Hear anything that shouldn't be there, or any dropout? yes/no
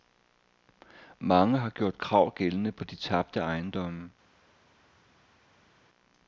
no